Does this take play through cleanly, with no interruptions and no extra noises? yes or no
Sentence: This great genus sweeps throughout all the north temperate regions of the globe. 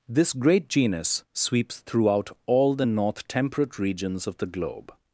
yes